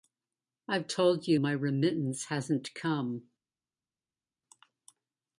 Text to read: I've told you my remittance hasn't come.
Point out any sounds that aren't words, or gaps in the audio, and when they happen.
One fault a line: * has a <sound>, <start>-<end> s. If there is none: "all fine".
all fine